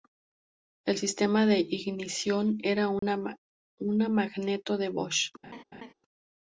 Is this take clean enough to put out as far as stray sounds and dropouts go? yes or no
no